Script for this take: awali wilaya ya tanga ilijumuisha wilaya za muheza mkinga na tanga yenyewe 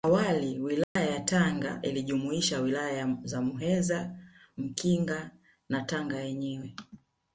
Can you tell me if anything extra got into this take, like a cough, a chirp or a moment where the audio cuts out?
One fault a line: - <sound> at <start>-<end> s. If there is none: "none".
- dropout at 0.8-1.0 s